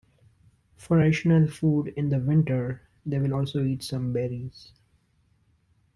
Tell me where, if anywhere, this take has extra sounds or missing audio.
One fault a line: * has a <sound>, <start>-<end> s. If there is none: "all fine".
all fine